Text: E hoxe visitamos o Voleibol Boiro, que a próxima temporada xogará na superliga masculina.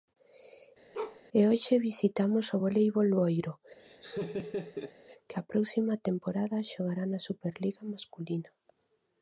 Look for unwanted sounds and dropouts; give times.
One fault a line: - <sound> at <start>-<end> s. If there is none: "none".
- bark at 0.9-1.2 s
- laugh at 3.8-4.9 s